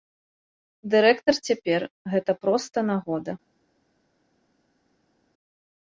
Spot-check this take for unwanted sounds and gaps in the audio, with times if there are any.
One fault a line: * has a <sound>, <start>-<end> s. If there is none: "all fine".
all fine